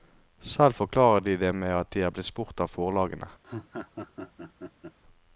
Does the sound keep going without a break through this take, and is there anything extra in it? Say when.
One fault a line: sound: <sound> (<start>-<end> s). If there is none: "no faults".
sound: laugh (3.4-5.0 s)